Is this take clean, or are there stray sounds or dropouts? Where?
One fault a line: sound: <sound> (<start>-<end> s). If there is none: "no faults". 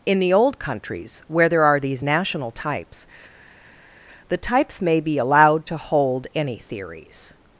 no faults